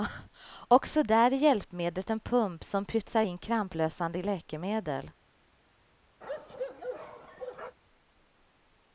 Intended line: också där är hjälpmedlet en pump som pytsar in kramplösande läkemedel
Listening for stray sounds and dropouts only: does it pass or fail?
fail